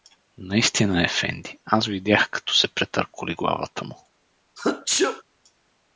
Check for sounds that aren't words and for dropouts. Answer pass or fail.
fail